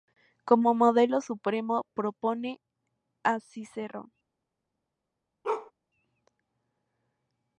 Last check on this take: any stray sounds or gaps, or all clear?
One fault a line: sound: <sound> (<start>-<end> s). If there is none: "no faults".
sound: bark (5.4-5.7 s)